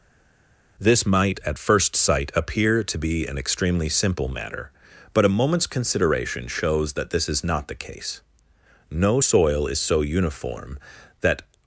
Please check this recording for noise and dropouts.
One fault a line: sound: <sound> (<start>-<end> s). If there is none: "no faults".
no faults